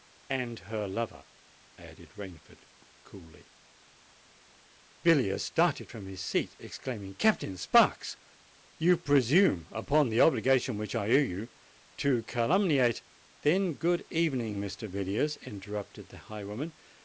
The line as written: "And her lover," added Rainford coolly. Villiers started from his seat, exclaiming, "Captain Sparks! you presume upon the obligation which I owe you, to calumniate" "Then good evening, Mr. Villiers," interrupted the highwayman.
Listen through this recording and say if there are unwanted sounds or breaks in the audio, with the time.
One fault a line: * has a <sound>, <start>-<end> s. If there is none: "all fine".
all fine